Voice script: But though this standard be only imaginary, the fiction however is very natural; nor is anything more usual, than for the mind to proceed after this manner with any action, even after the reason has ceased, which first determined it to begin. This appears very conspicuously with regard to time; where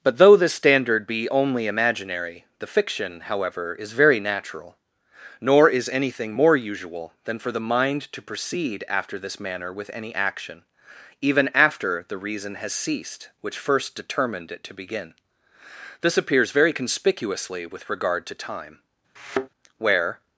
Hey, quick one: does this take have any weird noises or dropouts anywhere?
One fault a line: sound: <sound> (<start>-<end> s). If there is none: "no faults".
sound: thud (19.2-19.5 s)